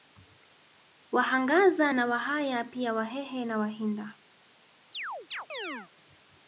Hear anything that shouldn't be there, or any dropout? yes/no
yes